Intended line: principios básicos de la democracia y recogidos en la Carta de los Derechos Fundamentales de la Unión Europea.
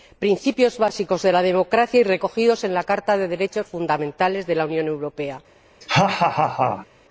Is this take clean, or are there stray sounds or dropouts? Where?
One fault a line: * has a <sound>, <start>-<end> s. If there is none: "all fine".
* has a laugh, 5.8-6.9 s